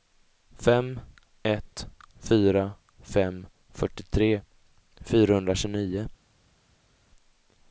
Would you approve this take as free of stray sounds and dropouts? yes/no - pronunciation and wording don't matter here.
yes